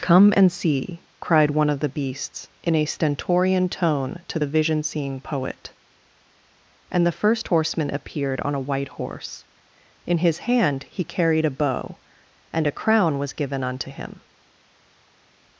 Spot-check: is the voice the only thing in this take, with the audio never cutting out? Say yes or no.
yes